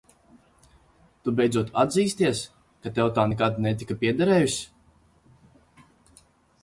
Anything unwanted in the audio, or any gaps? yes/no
no